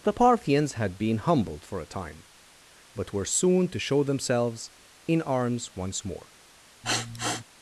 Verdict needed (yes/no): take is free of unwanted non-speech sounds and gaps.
no